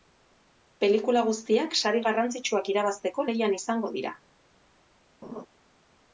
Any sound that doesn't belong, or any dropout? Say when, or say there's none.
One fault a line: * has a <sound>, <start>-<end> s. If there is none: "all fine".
* has a laugh, 5.2-5.5 s